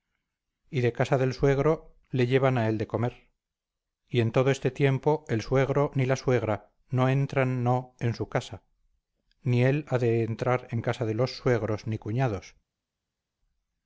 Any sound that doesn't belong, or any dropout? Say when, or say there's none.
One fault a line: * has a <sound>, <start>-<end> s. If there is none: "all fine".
all fine